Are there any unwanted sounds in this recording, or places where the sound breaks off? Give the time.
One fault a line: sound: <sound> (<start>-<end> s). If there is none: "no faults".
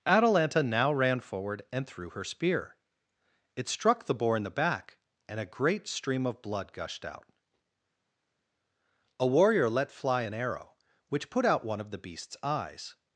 no faults